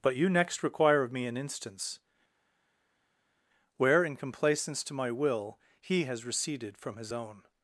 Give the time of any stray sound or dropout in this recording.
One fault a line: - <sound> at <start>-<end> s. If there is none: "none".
none